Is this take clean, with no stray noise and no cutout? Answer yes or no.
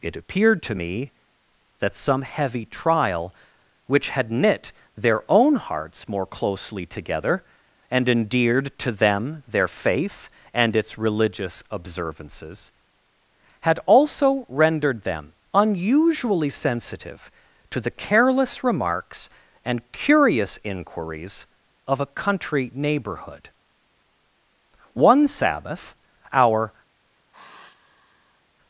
no